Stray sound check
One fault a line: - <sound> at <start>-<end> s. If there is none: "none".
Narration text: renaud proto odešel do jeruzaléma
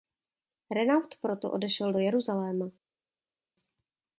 none